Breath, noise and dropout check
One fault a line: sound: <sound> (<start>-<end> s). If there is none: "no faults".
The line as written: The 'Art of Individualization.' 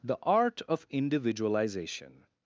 no faults